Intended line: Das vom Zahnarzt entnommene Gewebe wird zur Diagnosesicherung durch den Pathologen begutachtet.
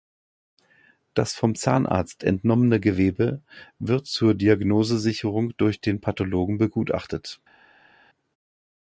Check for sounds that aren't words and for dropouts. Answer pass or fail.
pass